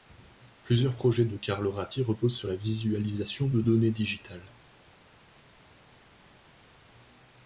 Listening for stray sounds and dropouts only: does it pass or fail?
pass